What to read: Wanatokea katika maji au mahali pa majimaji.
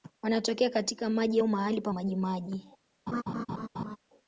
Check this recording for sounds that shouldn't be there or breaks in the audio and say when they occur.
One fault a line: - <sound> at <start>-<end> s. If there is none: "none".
- laugh at 3.1-4.0 s